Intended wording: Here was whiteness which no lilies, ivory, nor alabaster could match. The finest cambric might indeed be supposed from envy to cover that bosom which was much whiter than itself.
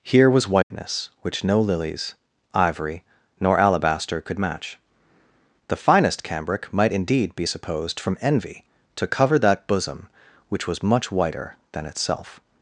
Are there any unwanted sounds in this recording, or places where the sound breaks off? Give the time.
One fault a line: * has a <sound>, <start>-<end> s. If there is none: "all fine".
* has a dropout, 0.6-0.7 s